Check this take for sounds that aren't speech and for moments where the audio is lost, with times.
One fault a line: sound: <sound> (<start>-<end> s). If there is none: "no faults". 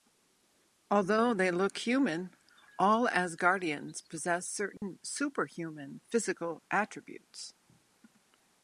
sound: dropout (4.8-4.8 s)